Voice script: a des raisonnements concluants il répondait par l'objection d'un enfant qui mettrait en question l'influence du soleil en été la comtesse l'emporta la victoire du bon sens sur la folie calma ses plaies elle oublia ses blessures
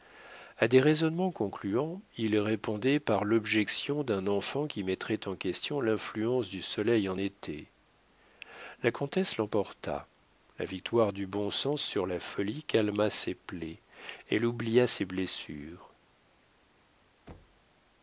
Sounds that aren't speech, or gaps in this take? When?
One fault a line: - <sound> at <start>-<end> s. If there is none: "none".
- thud at 17.3-17.6 s